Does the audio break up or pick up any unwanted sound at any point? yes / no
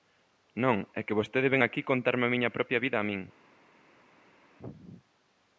no